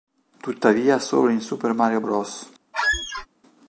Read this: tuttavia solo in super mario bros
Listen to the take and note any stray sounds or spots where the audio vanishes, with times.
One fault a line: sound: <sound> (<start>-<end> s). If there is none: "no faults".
sound: squeak (2.7-3.3 s)